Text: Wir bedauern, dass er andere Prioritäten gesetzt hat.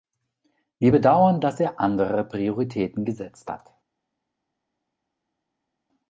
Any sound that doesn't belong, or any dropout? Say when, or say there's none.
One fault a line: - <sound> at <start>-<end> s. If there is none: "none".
none